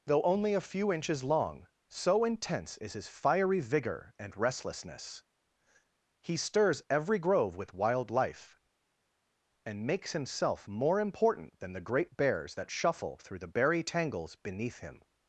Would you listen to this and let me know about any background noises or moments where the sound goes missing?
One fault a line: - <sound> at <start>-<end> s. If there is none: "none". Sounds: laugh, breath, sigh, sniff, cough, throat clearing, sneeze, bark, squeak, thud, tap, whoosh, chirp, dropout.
none